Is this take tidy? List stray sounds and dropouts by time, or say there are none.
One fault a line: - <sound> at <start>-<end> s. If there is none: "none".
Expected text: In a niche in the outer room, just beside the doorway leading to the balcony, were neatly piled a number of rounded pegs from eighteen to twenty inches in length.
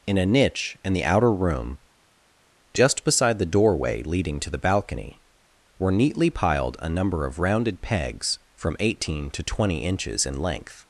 none